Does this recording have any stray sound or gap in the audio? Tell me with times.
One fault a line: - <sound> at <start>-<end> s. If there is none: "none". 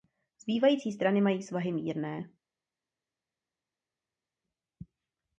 none